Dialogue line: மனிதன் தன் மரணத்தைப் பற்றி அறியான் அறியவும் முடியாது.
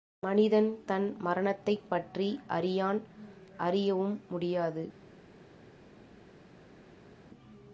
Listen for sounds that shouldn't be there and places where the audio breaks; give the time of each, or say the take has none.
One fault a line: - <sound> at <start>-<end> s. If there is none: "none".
none